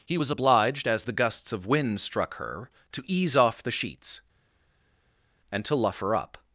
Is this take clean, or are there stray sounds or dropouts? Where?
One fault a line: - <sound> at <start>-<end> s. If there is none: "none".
none